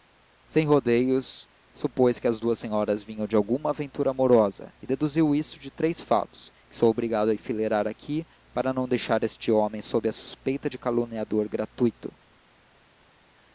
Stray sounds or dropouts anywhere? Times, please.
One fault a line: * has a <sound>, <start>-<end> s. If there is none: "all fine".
all fine